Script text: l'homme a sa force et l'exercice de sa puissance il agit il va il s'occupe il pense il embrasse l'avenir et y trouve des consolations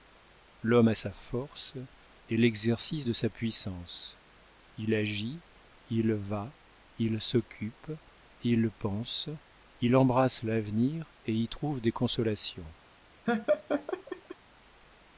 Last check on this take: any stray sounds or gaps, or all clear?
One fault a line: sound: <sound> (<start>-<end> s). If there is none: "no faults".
sound: laugh (13.3-14.4 s)